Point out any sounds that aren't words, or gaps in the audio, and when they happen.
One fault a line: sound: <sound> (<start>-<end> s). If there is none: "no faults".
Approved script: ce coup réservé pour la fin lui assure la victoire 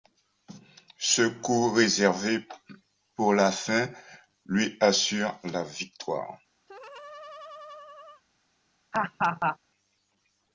sound: laugh (6.7-8.2 s)
sound: laugh (8.9-9.6 s)